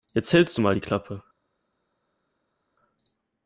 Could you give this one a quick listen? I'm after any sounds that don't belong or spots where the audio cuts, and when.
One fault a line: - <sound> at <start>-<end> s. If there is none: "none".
none